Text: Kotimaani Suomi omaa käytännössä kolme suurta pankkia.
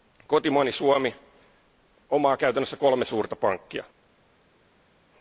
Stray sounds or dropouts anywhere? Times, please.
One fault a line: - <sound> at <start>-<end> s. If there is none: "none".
none